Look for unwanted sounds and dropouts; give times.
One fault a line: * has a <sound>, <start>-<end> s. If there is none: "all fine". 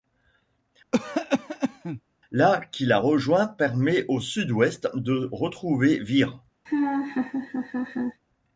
* has a cough, 0.9-2.0 s
* has a laugh, 6.7-8.2 s